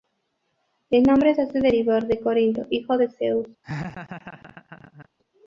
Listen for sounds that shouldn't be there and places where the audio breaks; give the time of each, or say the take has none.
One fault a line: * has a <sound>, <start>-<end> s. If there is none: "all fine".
* has a laugh, 3.6-5.1 s